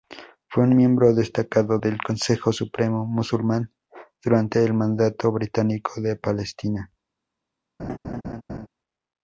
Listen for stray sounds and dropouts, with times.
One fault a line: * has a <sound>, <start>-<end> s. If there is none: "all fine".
* has a laugh, 7.8-8.7 s